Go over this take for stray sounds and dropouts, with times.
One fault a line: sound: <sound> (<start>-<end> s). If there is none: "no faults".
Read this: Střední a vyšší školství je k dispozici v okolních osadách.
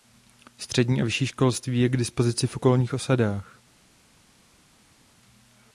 no faults